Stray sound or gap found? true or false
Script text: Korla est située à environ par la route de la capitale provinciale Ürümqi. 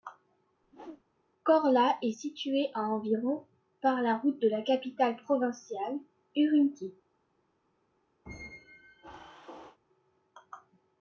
true